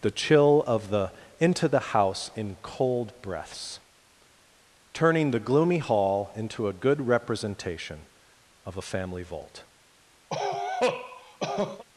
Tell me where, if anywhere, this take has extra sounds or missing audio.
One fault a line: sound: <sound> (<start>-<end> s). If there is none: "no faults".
sound: cough (10.3-11.8 s)